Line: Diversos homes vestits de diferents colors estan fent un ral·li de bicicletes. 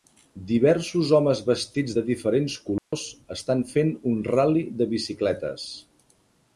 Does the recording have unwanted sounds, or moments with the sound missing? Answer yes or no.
yes